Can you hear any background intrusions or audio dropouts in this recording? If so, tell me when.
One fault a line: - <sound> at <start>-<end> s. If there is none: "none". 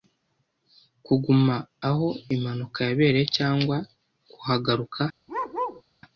- bark at 5.3-5.8 s